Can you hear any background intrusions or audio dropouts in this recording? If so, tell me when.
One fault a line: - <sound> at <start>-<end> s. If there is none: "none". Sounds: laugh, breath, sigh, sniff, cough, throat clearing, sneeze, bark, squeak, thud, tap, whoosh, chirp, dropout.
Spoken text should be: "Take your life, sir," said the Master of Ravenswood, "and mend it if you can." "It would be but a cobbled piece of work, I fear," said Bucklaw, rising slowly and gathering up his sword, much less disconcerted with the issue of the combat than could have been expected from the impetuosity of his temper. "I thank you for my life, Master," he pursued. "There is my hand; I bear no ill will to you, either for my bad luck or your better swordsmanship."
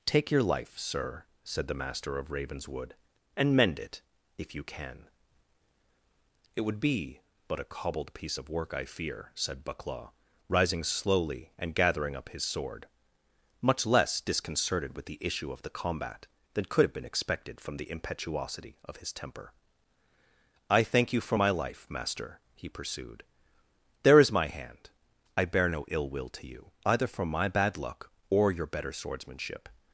none